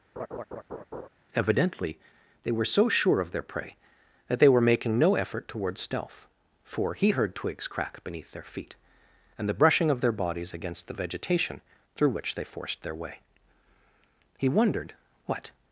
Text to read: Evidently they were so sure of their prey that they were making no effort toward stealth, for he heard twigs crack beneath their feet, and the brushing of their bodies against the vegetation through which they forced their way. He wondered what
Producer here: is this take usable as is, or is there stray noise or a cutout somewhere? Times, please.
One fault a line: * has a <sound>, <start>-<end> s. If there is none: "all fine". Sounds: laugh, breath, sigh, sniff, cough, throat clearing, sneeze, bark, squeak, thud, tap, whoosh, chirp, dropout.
* has a laugh, 0.2-1.1 s